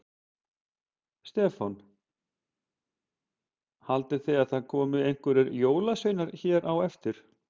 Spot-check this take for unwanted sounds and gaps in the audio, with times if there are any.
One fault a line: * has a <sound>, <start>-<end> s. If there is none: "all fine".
all fine